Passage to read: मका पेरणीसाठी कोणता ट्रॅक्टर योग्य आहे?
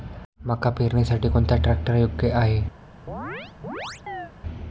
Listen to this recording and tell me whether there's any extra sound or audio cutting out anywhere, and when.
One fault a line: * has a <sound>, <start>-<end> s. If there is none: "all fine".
* has a chirp, 3.1-4.3 s